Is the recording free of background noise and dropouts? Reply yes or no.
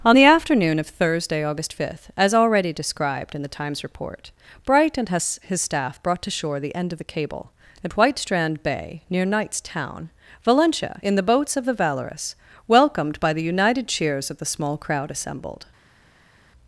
yes